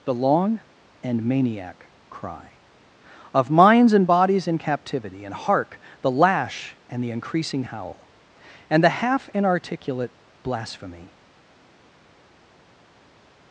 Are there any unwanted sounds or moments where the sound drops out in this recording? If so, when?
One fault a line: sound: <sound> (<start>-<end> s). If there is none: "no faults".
no faults